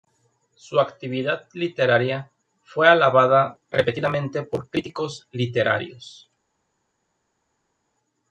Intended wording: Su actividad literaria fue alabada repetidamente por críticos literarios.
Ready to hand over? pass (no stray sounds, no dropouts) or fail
pass